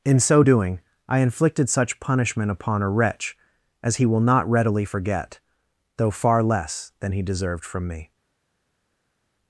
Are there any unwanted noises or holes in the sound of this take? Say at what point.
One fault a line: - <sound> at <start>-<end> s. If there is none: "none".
none